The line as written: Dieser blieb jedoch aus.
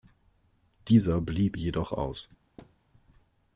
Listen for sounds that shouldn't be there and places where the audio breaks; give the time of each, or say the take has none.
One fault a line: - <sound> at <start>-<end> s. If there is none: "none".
- thud at 2.6-2.7 s